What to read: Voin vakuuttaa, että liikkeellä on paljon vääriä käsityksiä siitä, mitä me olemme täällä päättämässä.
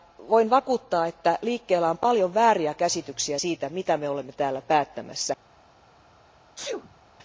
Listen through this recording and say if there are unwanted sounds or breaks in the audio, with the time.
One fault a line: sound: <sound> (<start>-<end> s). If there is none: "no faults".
sound: sneeze (6.6-7.0 s)